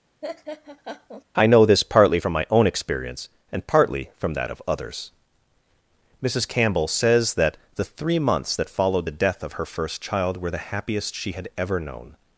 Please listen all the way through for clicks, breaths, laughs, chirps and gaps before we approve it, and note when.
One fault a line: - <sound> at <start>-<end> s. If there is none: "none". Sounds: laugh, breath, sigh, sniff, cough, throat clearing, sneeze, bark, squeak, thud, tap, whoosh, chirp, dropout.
- laugh at 0.2-1.2 s